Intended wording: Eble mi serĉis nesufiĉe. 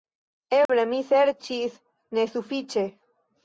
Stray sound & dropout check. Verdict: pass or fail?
fail